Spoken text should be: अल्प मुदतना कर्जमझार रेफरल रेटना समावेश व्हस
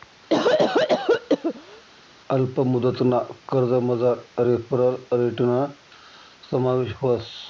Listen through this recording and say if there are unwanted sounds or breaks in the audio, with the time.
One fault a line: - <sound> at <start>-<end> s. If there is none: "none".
- cough at 0.3-1.8 s